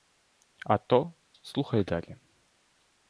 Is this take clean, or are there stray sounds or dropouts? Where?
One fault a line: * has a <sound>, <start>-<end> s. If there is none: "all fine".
all fine